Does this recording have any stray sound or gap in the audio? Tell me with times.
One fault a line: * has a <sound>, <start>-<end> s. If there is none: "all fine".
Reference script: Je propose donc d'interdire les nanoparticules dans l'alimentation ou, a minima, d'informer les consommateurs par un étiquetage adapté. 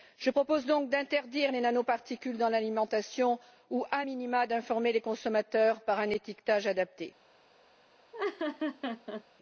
* has a laugh, 8.1-9.2 s